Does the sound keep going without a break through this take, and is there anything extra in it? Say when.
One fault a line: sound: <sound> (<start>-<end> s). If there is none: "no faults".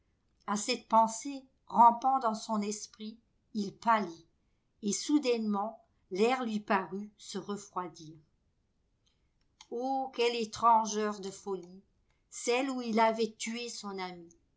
no faults